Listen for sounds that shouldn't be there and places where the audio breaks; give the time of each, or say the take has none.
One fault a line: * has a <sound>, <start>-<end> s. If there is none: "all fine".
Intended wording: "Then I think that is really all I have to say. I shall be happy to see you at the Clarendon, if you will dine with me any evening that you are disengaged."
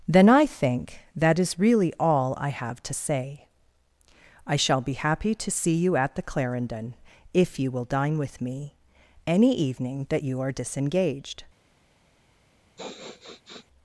* has a sniff, 12.8-13.7 s